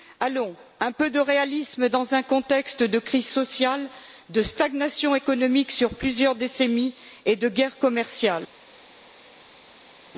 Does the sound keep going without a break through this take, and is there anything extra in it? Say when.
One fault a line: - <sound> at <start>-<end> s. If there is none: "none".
none